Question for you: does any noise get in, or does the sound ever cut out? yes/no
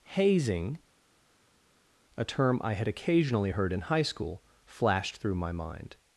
no